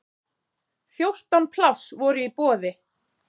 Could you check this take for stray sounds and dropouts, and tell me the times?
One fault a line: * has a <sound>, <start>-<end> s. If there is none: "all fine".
all fine